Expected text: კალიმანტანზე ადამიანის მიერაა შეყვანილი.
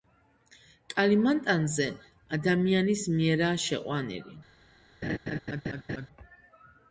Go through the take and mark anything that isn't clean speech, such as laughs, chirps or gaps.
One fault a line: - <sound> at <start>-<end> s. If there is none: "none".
- laugh at 5.0-6.1 s